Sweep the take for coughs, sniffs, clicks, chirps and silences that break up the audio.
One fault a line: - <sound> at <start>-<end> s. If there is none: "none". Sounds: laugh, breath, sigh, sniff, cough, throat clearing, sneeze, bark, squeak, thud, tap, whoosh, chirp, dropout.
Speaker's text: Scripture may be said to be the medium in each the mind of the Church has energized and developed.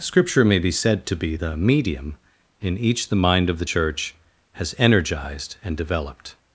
none